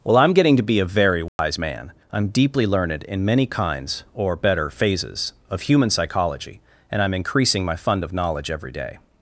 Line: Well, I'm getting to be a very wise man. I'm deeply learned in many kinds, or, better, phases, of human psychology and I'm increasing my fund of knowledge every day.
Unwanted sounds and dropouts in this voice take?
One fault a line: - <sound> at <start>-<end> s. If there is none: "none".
- dropout at 1.3-1.4 s